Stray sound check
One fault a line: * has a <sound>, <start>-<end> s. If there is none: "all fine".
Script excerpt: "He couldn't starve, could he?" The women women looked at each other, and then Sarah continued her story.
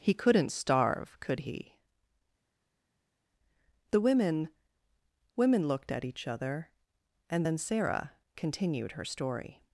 all fine